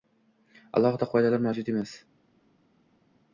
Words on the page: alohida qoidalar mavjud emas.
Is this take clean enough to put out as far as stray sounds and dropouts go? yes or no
yes